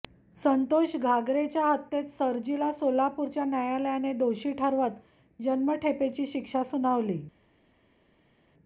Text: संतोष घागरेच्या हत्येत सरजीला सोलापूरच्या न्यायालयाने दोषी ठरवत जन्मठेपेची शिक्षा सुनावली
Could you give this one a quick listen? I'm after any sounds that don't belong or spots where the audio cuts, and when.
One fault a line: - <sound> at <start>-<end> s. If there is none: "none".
none